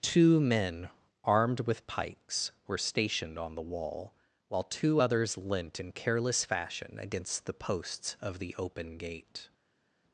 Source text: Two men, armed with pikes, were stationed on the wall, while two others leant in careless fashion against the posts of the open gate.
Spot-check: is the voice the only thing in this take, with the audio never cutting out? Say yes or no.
yes